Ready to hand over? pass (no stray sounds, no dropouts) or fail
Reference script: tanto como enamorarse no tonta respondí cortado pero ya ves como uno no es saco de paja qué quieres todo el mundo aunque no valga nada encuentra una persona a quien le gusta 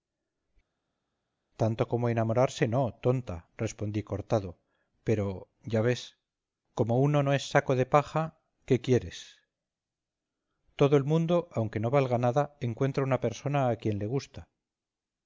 pass